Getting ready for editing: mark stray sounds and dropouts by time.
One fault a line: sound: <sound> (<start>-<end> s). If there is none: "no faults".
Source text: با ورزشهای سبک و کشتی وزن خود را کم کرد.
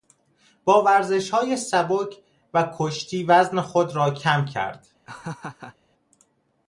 sound: laugh (5.1-5.8 s)